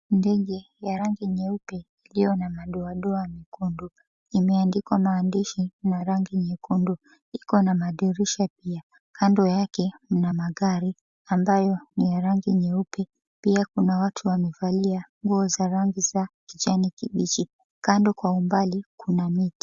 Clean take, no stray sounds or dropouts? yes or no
yes